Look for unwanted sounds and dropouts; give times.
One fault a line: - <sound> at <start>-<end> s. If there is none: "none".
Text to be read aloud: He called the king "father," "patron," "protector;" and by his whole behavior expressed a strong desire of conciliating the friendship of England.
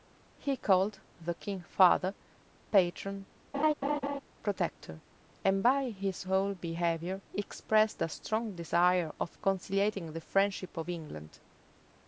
- laugh at 3.5-4.2 s